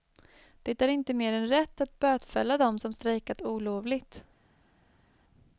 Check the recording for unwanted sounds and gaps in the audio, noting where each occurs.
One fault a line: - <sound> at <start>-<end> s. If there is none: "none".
none